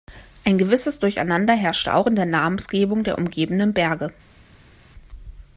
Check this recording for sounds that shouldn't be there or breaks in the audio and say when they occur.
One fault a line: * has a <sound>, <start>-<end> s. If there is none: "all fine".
all fine